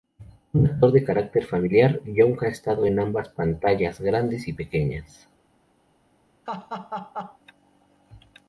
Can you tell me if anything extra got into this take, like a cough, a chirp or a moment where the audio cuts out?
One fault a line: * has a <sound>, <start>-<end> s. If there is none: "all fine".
* has a laugh, 6.5-7.4 s